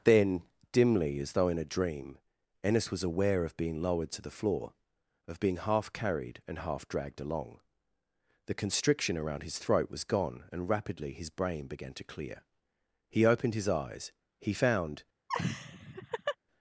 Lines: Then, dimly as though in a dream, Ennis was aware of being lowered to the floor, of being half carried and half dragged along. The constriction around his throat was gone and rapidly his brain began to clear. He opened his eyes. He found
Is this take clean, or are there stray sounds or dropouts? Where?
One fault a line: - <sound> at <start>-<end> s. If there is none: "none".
- laugh at 15.3-16.4 s